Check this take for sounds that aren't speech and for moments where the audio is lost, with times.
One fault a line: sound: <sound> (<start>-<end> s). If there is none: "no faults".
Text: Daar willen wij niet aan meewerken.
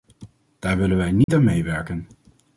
sound: dropout (1.2-1.3 s)